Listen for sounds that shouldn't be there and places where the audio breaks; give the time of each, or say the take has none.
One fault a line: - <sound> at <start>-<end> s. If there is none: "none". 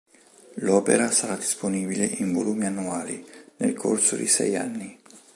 none